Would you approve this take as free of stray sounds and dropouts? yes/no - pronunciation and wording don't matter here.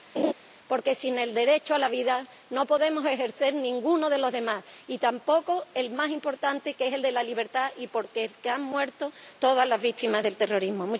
no